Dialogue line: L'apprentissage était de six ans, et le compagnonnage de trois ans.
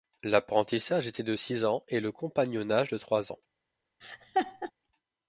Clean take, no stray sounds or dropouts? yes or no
no